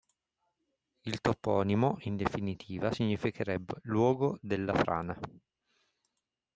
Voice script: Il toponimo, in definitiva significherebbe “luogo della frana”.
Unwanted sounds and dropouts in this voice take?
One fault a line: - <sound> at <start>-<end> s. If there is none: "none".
none